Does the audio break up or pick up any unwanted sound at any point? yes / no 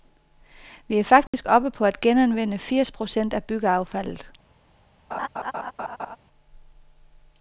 yes